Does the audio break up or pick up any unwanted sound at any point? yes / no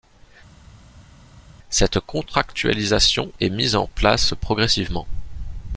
no